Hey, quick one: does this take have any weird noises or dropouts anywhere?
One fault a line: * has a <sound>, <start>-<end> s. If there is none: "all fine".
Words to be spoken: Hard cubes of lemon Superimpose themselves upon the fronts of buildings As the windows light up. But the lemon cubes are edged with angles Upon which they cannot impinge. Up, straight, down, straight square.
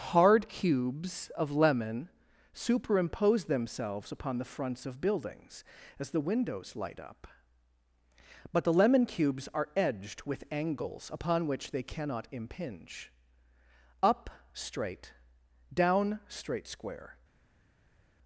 all fine